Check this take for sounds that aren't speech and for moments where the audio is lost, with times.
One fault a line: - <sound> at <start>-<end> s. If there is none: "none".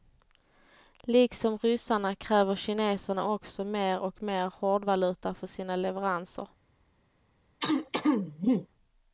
- throat clearing at 7.6-8.7 s